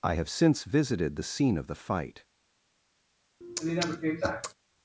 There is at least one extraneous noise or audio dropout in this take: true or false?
true